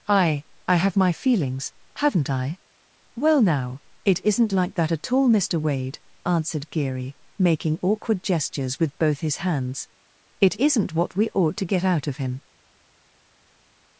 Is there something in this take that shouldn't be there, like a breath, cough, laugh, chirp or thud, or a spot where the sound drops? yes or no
no